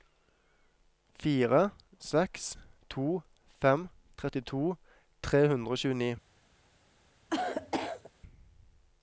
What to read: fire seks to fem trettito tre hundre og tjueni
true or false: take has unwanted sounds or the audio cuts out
true